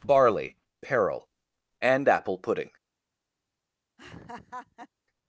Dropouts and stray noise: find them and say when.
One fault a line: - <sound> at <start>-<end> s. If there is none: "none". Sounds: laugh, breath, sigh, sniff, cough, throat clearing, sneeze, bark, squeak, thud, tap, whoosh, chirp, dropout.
- laugh at 4.0-4.9 s